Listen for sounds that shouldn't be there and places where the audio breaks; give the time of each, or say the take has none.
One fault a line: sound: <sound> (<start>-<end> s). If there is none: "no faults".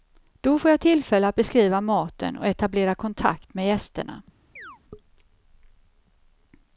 sound: chirp (4.6-4.8 s)